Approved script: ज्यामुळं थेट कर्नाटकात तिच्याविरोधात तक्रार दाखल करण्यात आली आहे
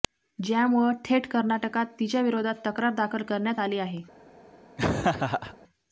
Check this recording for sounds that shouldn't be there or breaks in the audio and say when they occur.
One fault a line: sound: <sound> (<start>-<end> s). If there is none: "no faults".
sound: laugh (4.8-5.6 s)